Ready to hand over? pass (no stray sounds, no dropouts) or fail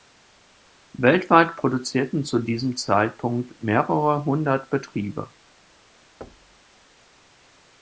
fail